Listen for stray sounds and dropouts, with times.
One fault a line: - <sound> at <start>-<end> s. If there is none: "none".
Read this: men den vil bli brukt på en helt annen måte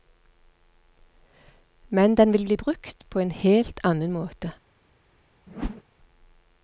- whoosh at 5.5-5.8 s